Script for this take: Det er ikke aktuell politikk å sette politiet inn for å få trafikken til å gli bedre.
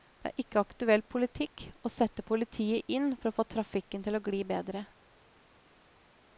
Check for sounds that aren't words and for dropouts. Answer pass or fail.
pass